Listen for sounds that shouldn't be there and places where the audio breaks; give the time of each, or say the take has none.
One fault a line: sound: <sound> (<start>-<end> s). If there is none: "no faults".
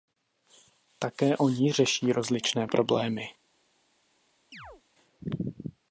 sound: chirp (4.5-4.8 s)